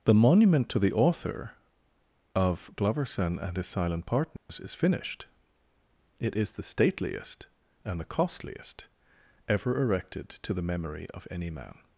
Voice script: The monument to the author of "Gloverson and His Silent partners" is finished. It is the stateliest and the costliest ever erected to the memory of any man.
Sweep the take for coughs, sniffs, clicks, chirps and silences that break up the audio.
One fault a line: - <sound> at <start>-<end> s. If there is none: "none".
- dropout at 4.4-4.5 s